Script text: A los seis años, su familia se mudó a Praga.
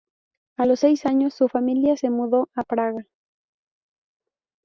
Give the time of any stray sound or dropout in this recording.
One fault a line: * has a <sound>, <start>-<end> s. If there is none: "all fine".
all fine